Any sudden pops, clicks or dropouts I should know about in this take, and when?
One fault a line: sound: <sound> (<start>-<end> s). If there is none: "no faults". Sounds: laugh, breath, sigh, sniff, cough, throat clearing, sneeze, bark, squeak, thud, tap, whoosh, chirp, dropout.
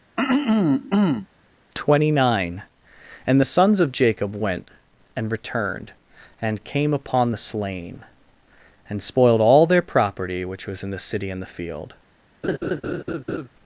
sound: throat clearing (0.2-1.3 s)
sound: laugh (12.4-13.5 s)